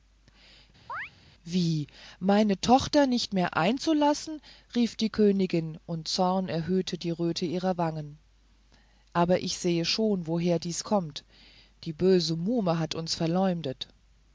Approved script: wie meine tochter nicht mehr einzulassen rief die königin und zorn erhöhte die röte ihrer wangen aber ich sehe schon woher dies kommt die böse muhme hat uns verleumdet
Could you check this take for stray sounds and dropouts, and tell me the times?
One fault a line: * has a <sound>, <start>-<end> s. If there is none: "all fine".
* has a chirp, 0.9-1.1 s